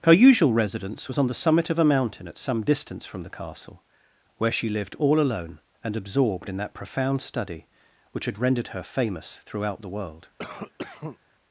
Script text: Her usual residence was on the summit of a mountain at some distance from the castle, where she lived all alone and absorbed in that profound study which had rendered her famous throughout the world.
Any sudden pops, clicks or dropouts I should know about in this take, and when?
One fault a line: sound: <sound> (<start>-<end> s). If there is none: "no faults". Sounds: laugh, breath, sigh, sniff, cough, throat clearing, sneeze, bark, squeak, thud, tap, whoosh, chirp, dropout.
sound: cough (10.4-11.2 s)